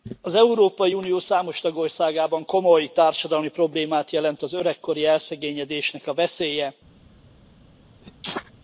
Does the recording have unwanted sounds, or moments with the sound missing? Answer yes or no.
yes